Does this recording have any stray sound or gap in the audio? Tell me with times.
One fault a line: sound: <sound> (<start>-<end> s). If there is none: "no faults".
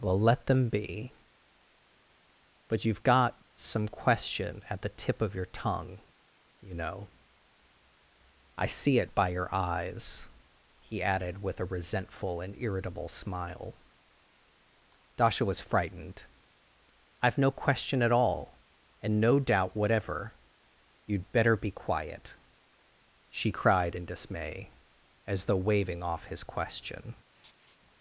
sound: laugh (27.4-27.8 s)